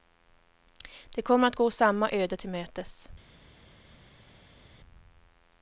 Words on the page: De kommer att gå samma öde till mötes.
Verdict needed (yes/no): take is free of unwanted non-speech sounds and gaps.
yes